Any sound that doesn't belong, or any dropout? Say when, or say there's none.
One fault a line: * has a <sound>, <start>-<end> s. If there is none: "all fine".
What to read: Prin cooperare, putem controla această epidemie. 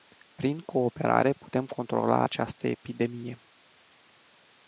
all fine